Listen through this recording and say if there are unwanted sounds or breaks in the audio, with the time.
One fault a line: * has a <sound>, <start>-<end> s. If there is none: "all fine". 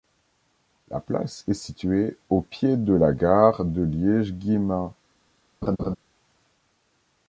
* has a laugh, 5.6-6.0 s